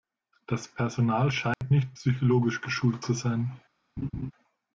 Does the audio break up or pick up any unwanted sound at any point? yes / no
yes